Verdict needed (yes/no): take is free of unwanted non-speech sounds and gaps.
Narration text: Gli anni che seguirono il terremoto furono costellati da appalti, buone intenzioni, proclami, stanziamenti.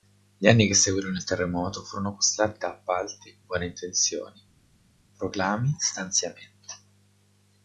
yes